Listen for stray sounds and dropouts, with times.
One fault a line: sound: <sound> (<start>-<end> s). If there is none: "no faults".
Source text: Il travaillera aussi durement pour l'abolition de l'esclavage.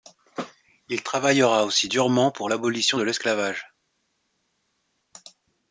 no faults